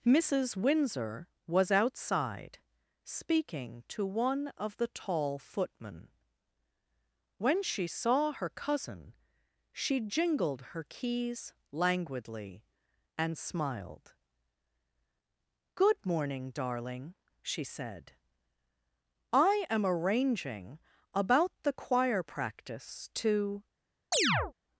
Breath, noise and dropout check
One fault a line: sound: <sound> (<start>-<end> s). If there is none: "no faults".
sound: chirp (24.1-24.5 s)